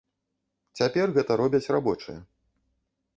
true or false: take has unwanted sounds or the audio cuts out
false